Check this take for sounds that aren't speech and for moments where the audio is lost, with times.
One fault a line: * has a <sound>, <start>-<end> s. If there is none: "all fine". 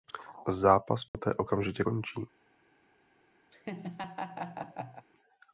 * has a dropout, 1.1-1.1 s
* has a laugh, 3.5-5.0 s